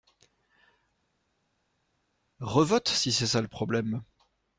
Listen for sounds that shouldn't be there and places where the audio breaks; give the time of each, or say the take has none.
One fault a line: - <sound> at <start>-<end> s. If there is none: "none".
none